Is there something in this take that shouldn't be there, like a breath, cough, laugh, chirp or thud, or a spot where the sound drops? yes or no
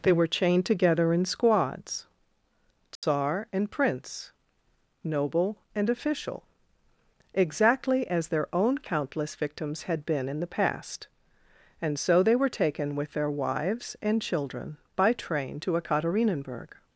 yes